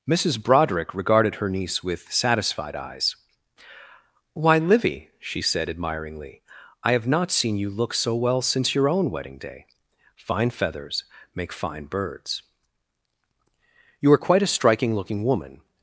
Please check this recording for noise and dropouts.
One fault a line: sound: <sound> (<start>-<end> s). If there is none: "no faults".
no faults